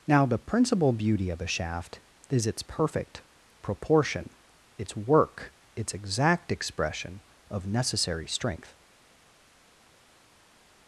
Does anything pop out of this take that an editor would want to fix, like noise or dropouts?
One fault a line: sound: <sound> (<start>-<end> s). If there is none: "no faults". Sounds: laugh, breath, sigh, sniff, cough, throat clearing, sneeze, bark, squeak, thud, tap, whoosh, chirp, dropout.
no faults